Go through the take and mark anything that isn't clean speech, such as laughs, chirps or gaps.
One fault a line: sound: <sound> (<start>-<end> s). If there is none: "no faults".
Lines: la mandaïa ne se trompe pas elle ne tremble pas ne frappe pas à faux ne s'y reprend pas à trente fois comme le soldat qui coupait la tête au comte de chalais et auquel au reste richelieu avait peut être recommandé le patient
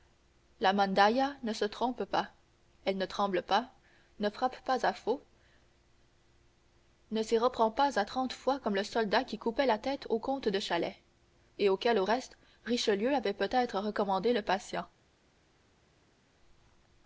no faults